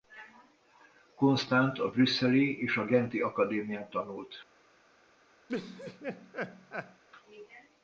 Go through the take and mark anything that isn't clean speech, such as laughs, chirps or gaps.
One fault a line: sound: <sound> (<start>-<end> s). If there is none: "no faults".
sound: laugh (5.5-7.0 s)